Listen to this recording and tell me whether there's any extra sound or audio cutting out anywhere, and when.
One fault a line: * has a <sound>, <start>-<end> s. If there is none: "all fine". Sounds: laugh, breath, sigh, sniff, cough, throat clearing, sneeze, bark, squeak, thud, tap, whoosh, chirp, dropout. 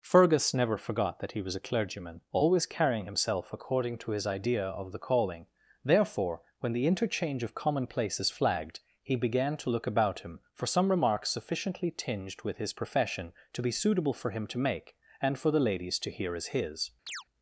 * has a chirp, 17.1-17.2 s